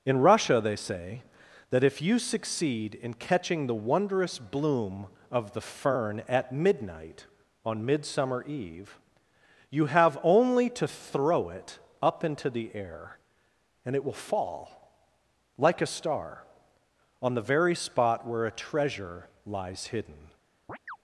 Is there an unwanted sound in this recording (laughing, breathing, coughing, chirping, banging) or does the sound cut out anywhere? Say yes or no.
yes